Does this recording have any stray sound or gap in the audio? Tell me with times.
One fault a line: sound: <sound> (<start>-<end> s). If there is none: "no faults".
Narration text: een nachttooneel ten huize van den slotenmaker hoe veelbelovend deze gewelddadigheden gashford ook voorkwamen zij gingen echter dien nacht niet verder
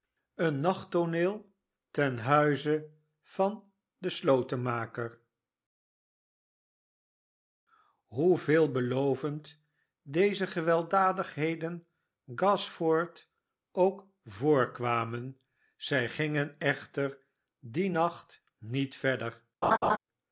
sound: laugh (19.6-20.0 s)